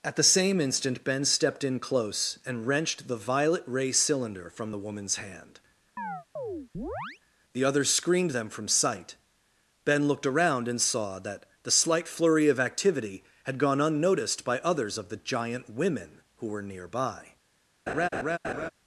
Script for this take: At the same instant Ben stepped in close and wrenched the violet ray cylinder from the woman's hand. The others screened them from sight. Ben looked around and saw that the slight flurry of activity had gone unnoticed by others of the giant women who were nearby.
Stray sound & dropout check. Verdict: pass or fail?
fail